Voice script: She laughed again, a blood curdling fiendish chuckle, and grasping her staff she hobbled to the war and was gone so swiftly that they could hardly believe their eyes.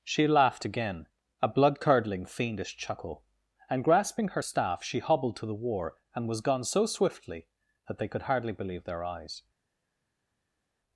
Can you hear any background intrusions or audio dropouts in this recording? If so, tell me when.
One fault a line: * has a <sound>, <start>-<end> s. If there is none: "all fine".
all fine